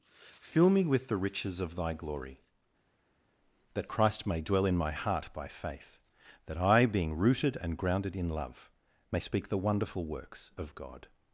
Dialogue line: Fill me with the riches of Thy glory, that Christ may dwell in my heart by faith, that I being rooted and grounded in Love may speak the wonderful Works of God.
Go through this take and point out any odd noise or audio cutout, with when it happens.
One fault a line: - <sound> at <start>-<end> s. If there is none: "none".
none